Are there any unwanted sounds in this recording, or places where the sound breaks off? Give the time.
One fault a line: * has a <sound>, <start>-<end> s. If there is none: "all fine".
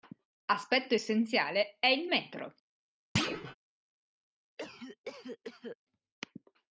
* has a thud, 3.2-3.6 s
* has a cough, 4.6-5.8 s